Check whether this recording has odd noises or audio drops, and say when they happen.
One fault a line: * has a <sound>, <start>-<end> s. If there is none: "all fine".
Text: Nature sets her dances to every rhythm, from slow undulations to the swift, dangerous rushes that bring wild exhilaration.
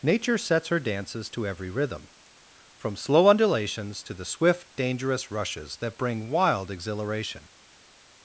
all fine